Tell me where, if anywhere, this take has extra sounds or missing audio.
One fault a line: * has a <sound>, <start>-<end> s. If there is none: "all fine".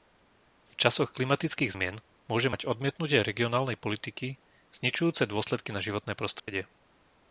* has a dropout, 6.4-6.5 s